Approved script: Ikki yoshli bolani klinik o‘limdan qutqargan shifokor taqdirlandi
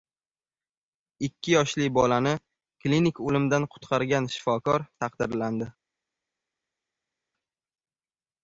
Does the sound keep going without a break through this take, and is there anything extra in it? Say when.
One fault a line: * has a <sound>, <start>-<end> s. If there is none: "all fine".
all fine